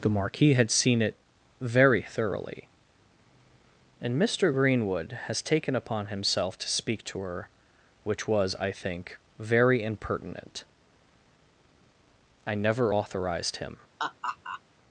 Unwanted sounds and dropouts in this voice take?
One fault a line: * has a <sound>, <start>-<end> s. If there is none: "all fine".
* has a laugh, 14.0-14.6 s